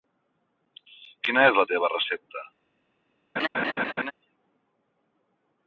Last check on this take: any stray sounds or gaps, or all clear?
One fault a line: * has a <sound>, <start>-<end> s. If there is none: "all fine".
* has a laugh, 3.4-4.1 s